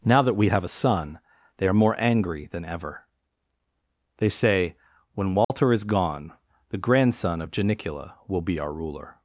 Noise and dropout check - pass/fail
fail